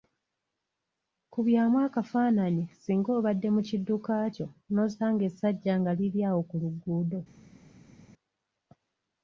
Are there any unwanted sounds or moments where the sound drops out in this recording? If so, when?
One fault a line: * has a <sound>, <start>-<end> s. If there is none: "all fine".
all fine